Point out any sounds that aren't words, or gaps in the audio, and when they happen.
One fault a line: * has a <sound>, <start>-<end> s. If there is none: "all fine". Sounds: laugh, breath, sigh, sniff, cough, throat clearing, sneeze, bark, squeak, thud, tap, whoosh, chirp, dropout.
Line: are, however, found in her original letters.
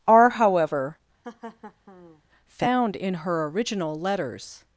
* has a laugh, 1.2-2.2 s